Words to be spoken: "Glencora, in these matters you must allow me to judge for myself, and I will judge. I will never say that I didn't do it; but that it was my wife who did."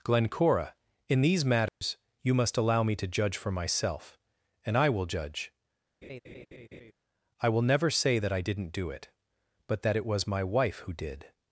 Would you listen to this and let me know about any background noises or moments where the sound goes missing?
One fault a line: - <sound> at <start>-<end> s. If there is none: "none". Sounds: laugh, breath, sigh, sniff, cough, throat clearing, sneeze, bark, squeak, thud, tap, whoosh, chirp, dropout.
- dropout at 1.7-1.8 s
- laugh at 6.0-6.9 s